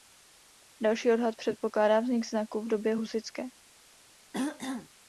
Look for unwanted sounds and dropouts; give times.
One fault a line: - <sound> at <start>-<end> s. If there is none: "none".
- throat clearing at 4.3-4.9 s